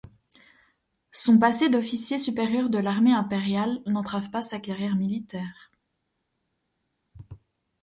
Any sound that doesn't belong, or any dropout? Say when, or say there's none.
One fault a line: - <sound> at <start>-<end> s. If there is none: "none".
none